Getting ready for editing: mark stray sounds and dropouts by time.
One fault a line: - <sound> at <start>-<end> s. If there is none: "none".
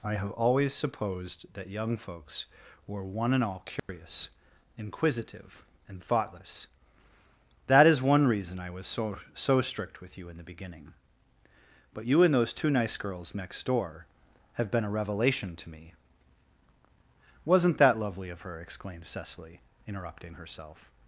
- dropout at 3.8-3.9 s